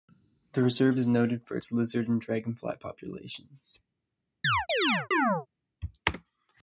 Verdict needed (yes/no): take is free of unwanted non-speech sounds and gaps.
no